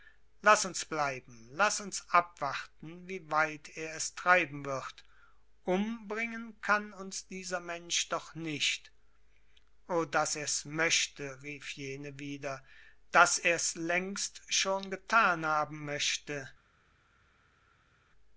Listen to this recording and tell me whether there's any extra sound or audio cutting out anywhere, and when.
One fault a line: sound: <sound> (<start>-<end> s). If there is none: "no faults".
no faults